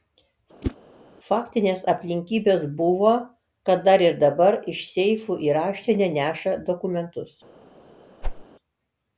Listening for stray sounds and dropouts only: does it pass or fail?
fail